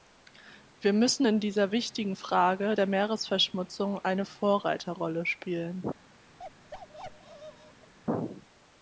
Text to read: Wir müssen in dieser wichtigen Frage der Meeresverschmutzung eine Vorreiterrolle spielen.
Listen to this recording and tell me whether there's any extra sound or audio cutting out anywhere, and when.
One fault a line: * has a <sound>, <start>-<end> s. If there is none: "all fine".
* has a bark, 6.4-7.9 s